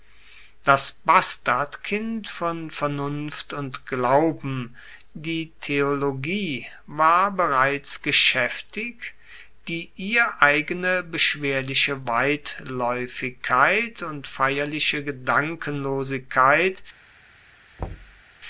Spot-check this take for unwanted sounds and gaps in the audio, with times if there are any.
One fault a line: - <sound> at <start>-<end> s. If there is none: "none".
- thud at 17.8-18.2 s